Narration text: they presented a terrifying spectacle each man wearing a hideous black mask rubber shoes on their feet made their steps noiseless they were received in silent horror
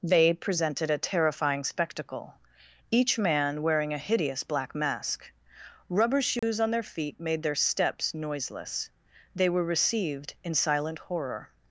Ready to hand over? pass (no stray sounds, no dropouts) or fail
fail